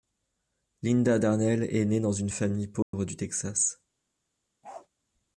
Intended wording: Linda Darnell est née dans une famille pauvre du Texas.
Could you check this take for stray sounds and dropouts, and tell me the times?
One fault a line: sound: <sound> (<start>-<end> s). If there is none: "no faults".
sound: dropout (2.8-2.9 s)
sound: bark (4.6-4.9 s)